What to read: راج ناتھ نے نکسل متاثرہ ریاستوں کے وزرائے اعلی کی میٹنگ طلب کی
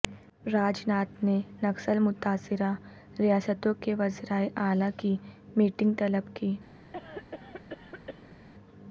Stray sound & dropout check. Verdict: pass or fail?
fail